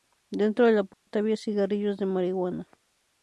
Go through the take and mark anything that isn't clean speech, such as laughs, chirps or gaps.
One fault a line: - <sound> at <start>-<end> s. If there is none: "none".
- dropout at 0.9-1.1 s